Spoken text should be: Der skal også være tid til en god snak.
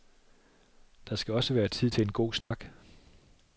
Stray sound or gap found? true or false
true